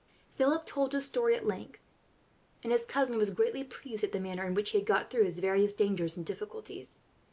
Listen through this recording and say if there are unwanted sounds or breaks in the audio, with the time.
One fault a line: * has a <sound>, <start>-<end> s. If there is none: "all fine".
all fine